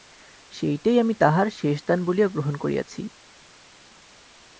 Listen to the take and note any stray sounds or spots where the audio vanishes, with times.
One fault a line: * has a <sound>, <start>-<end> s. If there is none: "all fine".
all fine